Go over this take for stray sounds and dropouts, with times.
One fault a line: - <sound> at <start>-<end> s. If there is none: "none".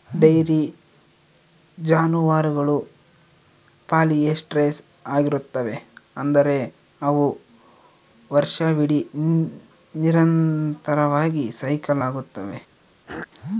- throat clearing at 13.1-13.3 s